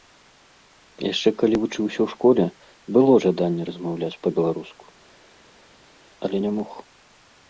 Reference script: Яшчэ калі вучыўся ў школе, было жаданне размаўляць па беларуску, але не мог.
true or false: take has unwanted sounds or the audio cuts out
false